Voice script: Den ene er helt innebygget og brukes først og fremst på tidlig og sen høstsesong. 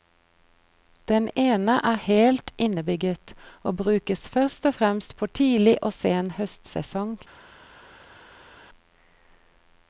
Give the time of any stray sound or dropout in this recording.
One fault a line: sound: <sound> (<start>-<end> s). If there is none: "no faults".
no faults